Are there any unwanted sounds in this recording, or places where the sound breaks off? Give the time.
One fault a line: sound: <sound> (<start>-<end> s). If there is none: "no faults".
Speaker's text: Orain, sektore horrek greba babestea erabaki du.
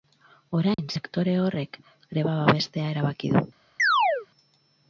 sound: dropout (0.7-0.8 s)
sound: chirp (3.8-4.3 s)